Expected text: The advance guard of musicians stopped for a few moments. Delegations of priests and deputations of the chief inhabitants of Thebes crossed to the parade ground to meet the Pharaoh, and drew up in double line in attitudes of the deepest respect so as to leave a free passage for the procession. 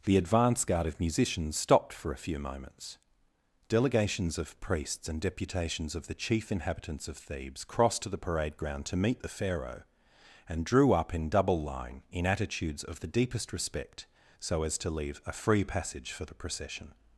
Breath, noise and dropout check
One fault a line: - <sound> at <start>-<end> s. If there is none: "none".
none